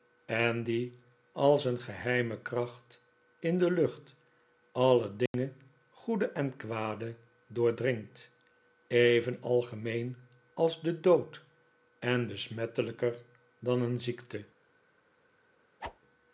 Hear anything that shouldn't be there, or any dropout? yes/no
yes